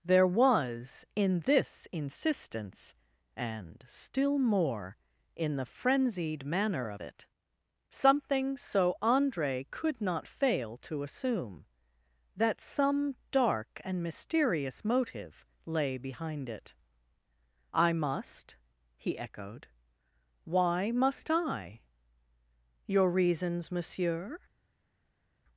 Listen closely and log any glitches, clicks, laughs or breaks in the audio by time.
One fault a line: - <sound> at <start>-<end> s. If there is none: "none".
none